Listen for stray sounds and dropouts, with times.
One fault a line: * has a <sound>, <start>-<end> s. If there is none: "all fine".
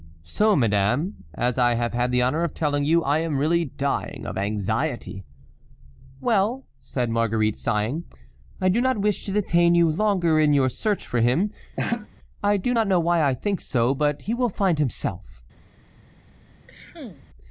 * has a laugh, 11.8-12.1 s
* has a cough, 16.7-17.3 s